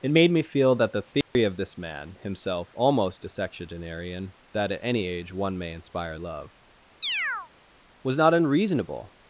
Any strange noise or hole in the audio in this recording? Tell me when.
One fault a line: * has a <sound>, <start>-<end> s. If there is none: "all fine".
* has a dropout, 1.2-1.3 s
* has a chirp, 7.0-7.5 s